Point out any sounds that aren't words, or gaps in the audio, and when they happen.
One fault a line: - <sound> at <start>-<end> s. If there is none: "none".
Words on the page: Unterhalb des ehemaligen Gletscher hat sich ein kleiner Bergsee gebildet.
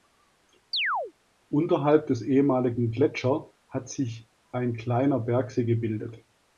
- chirp at 0.7-1.1 s